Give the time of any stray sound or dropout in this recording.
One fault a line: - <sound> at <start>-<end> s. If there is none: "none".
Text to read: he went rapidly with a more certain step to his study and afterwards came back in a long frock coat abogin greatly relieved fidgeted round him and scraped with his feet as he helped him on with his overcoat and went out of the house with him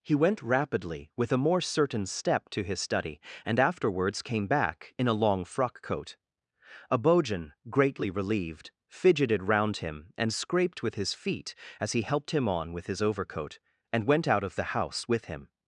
none